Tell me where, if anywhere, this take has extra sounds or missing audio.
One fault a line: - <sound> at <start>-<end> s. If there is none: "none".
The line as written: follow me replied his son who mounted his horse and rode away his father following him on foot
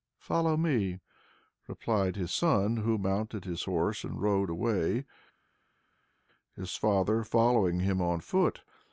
none